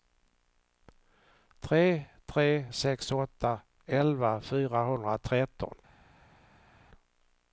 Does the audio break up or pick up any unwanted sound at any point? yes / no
no